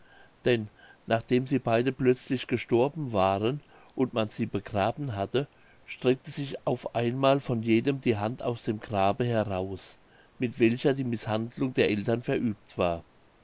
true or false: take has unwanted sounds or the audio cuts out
false